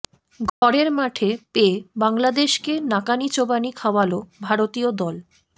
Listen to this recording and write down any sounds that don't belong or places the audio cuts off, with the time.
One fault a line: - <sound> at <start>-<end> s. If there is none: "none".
- dropout at 0.5-0.6 s